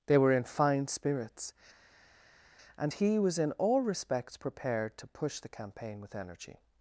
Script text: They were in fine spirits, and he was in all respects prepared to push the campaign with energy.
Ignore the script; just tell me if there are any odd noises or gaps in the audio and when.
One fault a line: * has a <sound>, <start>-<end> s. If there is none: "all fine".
all fine